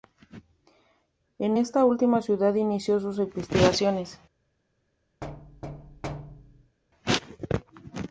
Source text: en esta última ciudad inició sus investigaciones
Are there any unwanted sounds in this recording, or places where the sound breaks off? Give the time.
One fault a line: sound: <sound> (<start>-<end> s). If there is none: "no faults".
sound: thud (5.2-6.8 s)